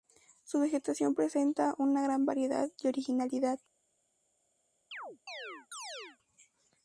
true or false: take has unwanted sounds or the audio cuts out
true